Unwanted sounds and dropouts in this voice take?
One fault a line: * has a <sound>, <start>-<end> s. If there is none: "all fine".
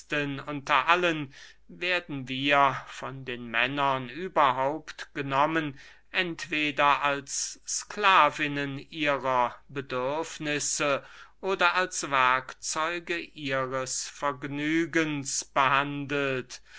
all fine